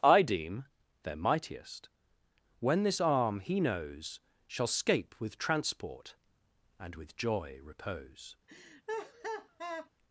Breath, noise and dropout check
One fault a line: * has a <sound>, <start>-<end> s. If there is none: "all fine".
* has a laugh, 8.5-9.9 s